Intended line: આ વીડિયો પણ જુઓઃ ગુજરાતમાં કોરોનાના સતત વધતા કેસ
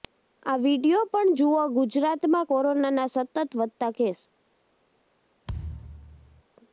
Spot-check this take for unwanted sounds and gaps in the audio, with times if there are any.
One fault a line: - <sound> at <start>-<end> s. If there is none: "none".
- thud at 5.5-6.4 s